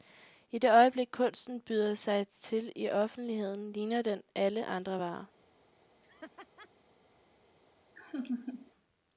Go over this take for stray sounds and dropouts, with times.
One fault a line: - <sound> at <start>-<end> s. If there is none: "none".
- laugh at 6.0-6.7 s
- laugh at 8.0-8.7 s